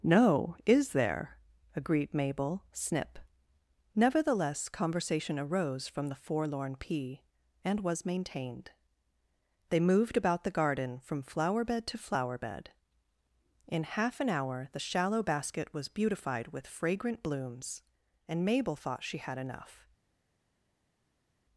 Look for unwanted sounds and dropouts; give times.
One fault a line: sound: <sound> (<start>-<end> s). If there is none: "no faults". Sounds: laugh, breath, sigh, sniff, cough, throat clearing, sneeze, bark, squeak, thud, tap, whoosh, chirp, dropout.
no faults